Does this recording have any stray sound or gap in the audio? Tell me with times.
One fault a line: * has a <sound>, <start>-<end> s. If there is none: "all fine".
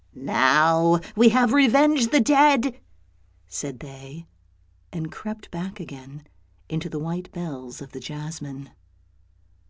all fine